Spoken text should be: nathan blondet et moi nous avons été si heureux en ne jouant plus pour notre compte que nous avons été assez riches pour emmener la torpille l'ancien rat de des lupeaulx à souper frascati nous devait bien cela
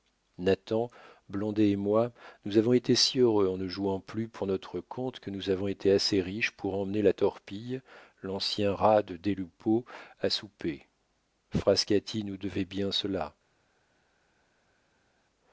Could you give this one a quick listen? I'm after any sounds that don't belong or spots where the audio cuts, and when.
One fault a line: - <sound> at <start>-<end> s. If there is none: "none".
none